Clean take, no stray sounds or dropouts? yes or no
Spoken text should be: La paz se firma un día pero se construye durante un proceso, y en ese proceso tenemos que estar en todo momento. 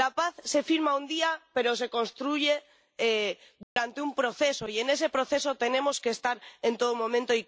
no